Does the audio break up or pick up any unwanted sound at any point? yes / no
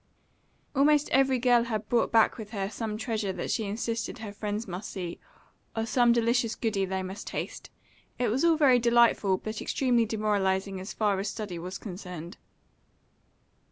no